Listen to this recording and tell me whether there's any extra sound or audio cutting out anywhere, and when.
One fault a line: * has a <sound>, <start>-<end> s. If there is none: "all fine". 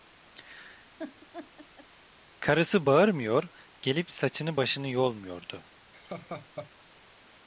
* has a laugh, 1.0-1.9 s
* has a laugh, 5.9-6.7 s